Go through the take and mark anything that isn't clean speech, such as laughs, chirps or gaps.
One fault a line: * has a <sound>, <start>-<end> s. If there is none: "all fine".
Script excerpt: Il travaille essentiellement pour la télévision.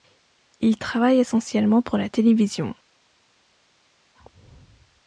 all fine